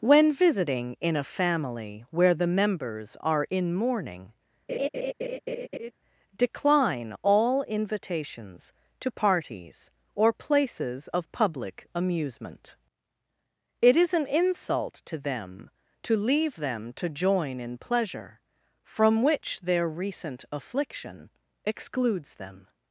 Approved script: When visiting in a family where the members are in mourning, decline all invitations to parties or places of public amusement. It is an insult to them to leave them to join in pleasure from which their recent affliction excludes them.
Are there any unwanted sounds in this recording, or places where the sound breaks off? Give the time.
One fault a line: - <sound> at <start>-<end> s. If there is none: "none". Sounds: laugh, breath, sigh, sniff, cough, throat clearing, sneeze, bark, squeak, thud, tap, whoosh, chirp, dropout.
- laugh at 4.7-5.9 s